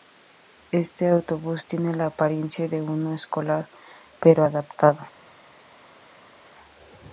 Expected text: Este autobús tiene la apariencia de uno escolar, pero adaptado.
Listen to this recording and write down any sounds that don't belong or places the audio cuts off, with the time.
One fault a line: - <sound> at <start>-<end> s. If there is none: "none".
none